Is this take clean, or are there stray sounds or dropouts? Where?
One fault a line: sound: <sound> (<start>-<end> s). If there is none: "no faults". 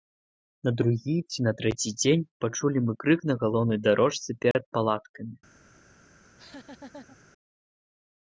sound: dropout (4.5-4.5 s)
sound: laugh (6.2-7.2 s)